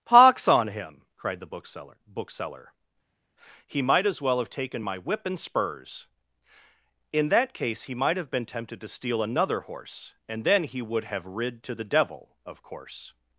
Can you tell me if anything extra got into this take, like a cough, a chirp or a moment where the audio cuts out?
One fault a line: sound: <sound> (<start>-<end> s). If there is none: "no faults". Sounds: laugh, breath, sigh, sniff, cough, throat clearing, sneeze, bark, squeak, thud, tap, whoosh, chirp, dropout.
no faults